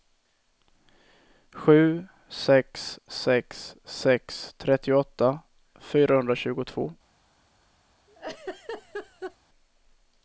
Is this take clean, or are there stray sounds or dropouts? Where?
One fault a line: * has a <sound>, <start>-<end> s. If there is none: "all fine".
* has a laugh, 8.1-9.4 s